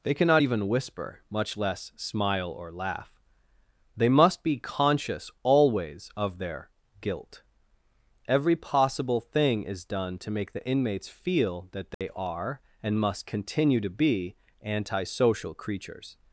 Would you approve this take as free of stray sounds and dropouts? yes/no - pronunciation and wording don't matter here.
no